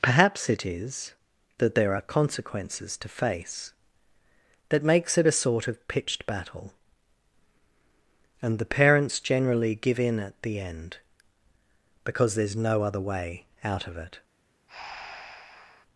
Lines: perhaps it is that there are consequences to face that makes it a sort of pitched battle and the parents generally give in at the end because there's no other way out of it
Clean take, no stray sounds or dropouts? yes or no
no